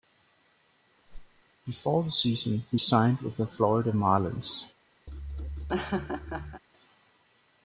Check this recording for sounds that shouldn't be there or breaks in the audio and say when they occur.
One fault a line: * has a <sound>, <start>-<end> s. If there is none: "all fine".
* has a whoosh, 1.1-1.4 s
* has a laugh, 5.1-6.6 s